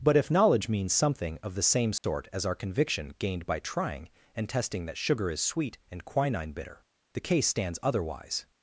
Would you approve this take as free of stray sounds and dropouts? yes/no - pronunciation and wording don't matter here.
no